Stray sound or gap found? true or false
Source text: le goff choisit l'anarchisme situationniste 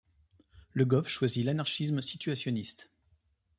false